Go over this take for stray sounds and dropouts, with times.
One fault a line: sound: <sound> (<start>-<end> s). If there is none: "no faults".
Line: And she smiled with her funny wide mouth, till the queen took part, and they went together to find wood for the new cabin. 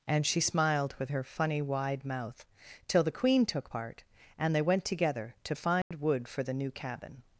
sound: dropout (5.8-5.9 s)